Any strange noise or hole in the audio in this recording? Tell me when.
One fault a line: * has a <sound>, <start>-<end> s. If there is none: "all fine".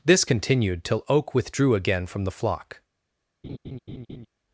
* has a laugh, 3.4-4.3 s